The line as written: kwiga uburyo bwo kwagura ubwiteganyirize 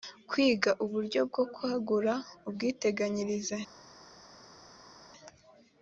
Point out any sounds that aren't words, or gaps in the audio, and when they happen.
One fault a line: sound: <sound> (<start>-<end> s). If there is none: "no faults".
no faults